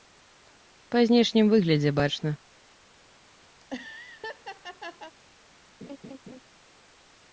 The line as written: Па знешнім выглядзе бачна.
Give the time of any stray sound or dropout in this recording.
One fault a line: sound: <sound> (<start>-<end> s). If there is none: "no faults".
sound: laugh (3.6-5.1 s)
sound: laugh (5.8-6.4 s)